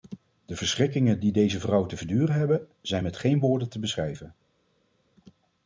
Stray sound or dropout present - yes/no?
no